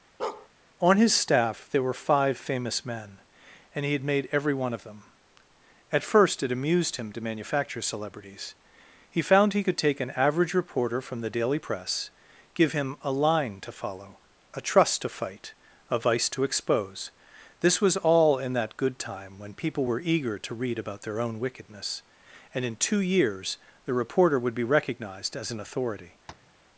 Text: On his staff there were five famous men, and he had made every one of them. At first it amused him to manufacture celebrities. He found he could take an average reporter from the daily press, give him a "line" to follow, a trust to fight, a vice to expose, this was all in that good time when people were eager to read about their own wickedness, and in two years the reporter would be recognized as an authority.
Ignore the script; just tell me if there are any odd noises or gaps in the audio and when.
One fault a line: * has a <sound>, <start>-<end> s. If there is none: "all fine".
* has a bark, 0.2-0.5 s
* has a tap, 26.3-26.5 s